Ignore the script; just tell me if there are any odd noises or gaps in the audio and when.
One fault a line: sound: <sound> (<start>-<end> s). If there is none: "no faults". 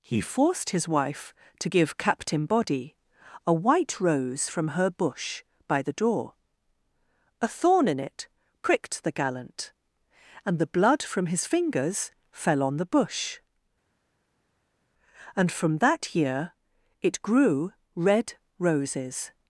no faults